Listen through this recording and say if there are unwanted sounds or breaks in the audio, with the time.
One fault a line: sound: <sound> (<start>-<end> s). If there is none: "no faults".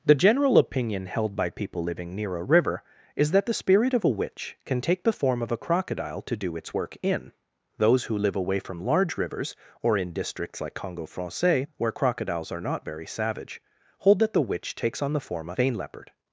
no faults